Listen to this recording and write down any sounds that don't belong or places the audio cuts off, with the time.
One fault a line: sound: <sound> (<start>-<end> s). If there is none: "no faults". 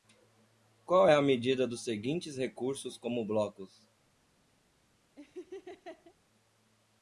sound: laugh (5.2-6.1 s)